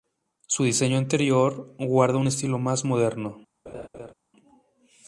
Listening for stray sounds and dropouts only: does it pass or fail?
fail